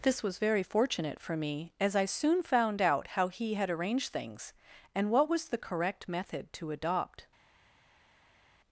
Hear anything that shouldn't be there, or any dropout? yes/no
no